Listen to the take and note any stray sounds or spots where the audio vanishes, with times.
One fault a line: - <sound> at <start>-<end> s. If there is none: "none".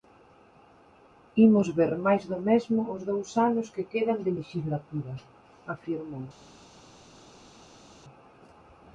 none